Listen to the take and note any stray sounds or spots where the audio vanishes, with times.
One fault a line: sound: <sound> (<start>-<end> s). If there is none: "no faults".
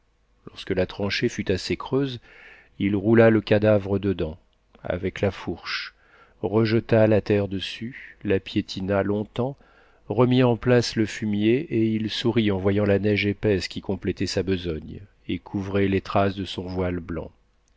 no faults